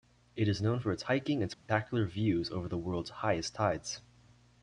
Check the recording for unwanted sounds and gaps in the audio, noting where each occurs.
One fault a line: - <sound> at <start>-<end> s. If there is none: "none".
- dropout at 1.5-1.7 s